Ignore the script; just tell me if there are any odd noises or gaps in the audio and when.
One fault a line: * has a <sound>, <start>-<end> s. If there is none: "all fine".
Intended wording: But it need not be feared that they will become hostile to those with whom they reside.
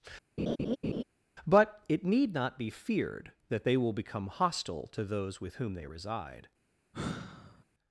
* has a laugh, 0.4-1.0 s
* has a sigh, 6.9-7.6 s